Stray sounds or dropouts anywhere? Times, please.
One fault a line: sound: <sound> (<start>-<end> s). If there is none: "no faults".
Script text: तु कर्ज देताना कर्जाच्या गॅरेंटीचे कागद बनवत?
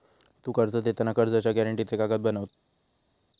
no faults